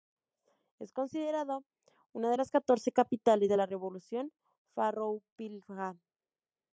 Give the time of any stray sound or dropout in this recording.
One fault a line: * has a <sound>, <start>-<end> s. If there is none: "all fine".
all fine